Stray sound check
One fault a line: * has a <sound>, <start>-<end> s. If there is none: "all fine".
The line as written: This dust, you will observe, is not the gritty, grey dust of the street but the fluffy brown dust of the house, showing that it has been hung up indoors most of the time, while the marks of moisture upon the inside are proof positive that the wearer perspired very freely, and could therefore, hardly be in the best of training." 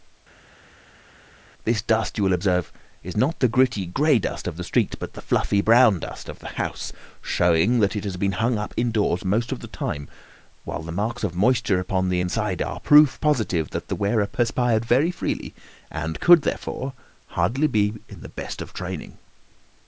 all fine